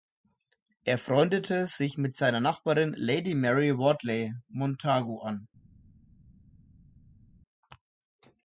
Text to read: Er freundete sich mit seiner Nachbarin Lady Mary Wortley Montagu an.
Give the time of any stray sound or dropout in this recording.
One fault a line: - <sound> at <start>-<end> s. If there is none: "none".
none